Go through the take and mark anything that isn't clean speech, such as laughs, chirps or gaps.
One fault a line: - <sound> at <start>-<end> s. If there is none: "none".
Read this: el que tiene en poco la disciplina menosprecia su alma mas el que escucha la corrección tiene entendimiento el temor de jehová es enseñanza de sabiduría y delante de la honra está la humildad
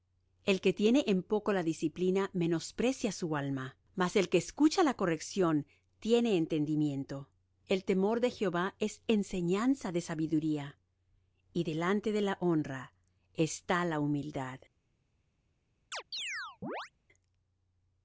- chirp at 15.9-16.9 s